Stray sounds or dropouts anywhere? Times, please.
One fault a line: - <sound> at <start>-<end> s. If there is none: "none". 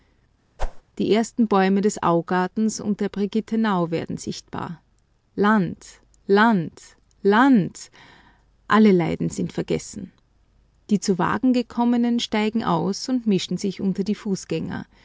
- whoosh at 0.6-0.8 s